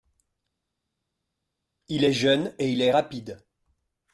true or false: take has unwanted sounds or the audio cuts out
false